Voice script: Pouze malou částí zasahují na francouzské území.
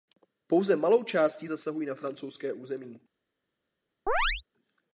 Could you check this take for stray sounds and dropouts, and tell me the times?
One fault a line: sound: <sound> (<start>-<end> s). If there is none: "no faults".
sound: chirp (4.1-4.4 s)